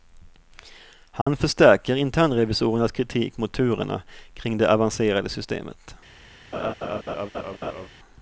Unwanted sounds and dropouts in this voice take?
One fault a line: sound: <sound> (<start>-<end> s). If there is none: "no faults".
sound: dropout (1.2-1.3 s)
sound: laugh (6.5-7.9 s)